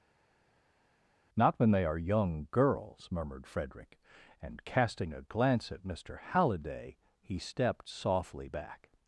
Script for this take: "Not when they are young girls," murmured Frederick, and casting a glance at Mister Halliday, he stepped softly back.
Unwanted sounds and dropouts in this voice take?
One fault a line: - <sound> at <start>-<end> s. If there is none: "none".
none